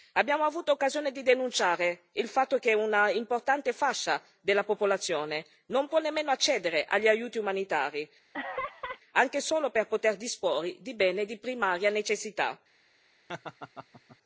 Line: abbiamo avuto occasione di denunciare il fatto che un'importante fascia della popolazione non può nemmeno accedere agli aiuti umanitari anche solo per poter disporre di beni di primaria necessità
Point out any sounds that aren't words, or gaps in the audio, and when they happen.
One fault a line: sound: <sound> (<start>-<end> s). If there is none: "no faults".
sound: laugh (8.3-9.0 s)
sound: laugh (13.3-14.2 s)